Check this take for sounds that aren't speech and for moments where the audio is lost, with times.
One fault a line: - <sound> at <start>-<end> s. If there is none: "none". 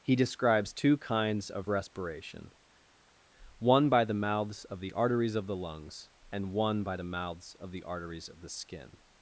none